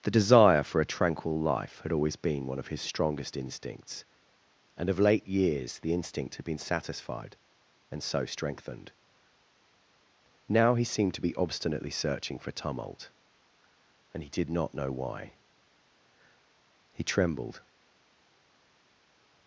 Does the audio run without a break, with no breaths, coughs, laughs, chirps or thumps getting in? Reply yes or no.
yes